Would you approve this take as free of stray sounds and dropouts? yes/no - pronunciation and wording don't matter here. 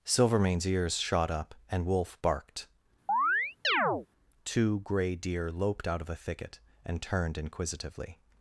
no